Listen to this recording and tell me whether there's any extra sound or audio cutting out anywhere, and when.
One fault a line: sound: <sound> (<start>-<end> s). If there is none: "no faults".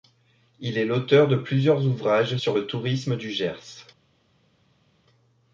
no faults